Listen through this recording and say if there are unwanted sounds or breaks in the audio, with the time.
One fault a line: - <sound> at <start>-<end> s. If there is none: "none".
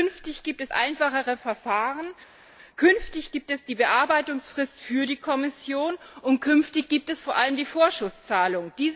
none